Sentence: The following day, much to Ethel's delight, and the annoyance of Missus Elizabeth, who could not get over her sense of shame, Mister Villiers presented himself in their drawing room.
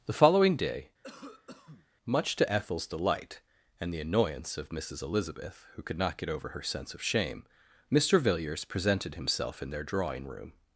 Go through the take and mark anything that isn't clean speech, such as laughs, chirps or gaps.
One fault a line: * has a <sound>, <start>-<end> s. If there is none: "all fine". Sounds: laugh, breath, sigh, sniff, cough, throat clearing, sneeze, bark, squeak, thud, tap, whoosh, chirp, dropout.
* has a cough, 1.0-1.9 s